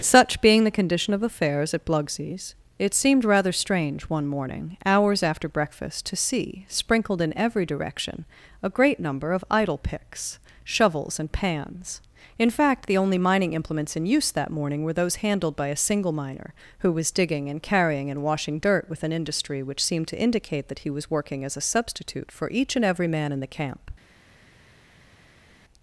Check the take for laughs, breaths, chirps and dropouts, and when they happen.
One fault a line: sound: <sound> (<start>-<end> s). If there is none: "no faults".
no faults